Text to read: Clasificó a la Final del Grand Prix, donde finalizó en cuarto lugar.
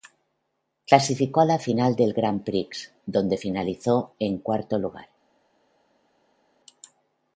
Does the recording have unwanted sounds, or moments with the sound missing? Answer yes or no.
no